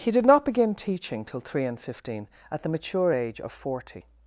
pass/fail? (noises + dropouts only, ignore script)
pass